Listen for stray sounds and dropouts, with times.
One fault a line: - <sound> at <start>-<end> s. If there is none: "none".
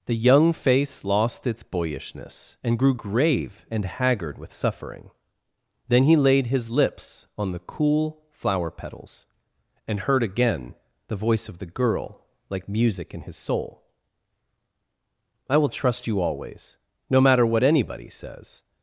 none